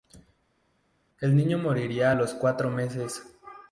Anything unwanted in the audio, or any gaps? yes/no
no